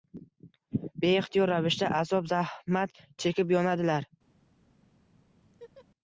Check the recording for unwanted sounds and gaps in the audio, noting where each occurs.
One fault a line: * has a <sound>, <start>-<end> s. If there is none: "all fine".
* has a laugh, 5.4-5.9 s